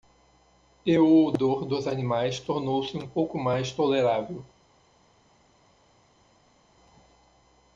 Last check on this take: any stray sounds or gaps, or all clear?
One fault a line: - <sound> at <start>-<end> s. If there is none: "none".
none